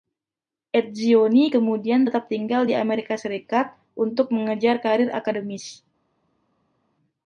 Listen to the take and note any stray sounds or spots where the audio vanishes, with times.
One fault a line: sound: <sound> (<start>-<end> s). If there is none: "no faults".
no faults